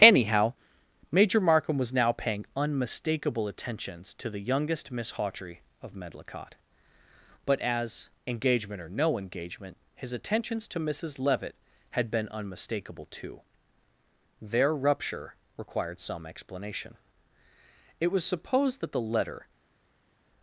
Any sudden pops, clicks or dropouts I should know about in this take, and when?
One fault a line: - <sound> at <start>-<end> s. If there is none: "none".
none